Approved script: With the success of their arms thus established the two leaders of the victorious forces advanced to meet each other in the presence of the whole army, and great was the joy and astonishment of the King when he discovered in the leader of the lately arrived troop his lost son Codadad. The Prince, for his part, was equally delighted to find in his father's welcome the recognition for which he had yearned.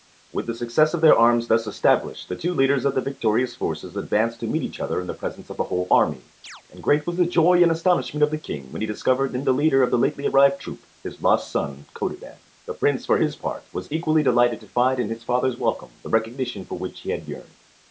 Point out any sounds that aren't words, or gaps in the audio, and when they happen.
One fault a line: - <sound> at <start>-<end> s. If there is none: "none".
- chirp at 6.4-6.6 s